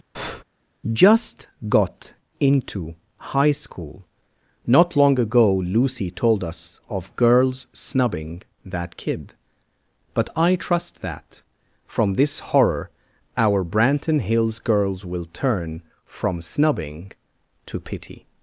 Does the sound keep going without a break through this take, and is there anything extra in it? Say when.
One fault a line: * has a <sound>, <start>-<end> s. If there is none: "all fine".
* has a breath, 0.1-0.4 s